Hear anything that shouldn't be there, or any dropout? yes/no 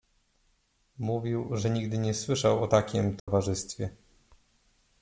yes